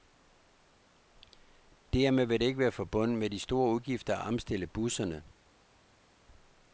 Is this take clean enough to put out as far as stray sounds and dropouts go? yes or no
yes